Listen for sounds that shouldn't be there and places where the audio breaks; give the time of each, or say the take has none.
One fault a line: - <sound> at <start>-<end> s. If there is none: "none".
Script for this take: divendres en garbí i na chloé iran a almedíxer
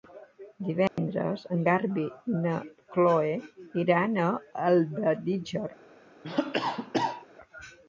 - dropout at 0.9-1.0 s
- cough at 6.2-7.3 s